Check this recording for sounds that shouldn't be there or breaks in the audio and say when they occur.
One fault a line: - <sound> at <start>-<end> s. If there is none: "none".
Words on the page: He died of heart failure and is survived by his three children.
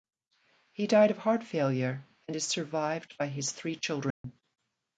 - dropout at 4.1-4.2 s